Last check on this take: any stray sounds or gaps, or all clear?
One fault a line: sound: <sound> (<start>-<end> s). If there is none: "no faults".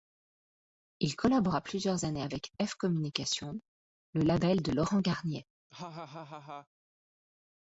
sound: laugh (5.7-6.7 s)